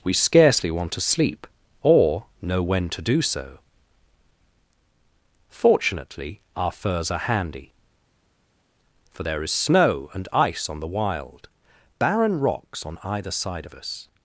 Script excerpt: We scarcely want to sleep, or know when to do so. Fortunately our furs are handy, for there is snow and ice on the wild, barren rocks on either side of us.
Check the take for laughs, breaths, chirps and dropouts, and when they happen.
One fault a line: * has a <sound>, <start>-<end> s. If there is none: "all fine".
all fine